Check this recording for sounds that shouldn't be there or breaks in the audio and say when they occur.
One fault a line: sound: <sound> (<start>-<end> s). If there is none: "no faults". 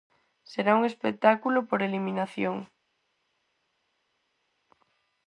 no faults